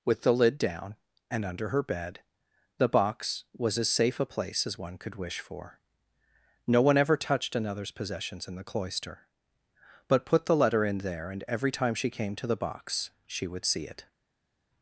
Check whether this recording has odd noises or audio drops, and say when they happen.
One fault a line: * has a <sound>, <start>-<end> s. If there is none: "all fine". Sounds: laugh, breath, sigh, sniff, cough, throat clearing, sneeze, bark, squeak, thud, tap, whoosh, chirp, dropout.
all fine